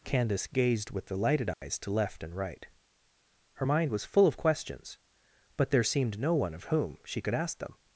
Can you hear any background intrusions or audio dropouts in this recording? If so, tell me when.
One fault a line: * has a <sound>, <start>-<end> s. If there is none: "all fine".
* has a dropout, 1.5-1.6 s